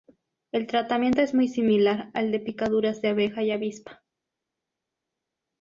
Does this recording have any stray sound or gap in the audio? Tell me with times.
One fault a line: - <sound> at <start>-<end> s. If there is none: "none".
none